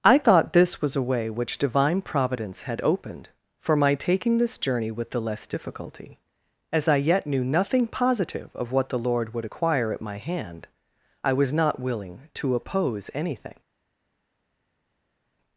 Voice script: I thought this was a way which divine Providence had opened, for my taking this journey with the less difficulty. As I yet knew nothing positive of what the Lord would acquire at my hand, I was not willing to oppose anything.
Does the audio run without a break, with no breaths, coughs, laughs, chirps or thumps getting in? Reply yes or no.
yes